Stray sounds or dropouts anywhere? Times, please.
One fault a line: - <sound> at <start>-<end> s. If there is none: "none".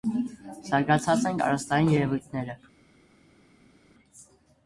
none